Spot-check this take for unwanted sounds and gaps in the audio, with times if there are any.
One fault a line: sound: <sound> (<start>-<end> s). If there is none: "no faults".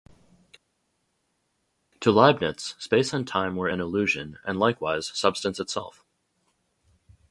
no faults